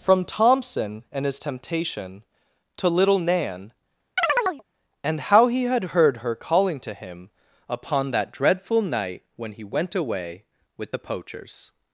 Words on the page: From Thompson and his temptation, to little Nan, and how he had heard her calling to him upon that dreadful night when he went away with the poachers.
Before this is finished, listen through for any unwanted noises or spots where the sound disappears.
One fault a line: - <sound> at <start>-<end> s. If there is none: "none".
- chirp at 4.2-4.6 s